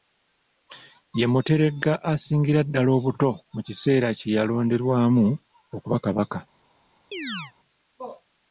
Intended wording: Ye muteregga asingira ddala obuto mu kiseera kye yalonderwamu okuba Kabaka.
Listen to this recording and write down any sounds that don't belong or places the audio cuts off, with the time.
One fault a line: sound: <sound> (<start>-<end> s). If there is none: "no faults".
sound: chirp (7.1-7.5 s)